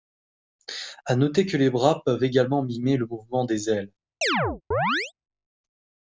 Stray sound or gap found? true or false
true